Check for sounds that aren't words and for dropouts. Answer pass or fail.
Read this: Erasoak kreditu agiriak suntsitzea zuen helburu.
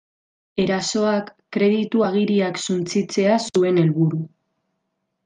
pass